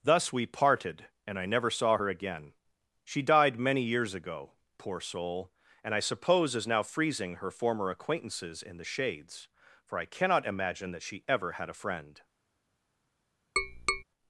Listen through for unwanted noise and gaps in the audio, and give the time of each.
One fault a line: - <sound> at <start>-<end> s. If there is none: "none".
- tap at 13.6-14.0 s